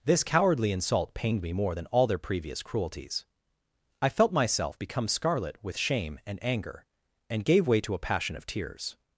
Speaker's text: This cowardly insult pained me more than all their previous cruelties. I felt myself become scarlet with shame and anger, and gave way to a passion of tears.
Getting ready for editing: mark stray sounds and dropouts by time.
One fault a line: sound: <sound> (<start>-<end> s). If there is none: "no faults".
no faults